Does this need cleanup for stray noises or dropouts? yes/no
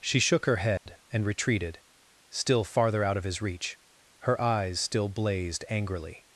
yes